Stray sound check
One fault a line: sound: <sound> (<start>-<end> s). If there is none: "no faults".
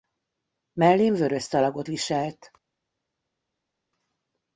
no faults